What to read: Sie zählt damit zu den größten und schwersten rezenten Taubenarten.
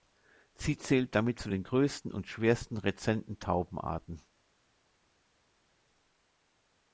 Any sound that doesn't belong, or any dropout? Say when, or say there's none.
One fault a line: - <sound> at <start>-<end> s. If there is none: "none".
none